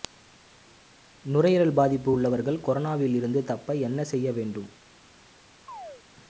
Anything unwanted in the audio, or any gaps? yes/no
yes